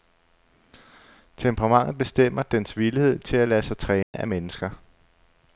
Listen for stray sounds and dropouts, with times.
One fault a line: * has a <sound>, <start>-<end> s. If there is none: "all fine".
* has a dropout, 4.0-4.1 s